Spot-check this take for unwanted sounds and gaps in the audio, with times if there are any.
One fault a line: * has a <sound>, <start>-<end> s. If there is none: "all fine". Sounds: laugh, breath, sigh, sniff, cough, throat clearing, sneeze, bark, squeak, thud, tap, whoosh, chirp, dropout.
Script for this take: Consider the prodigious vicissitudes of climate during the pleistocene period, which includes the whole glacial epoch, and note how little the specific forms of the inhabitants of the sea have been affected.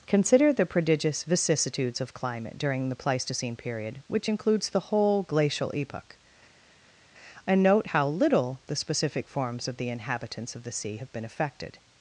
all fine